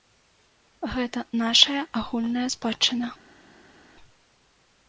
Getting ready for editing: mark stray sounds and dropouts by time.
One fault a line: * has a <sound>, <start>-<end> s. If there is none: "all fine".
all fine